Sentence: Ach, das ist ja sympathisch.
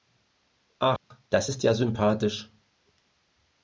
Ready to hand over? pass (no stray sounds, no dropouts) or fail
fail